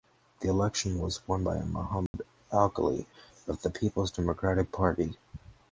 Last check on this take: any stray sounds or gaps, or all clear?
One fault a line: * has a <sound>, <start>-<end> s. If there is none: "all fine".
* has a dropout, 2.1-2.1 s